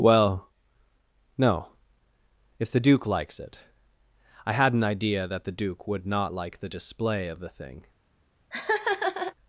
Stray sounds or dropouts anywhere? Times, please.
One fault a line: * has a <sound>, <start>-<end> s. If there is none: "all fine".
* has a laugh, 8.5-9.3 s